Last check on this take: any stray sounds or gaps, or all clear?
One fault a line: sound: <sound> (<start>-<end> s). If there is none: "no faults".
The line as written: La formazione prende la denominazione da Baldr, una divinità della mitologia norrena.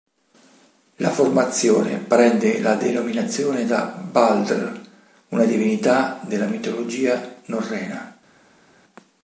no faults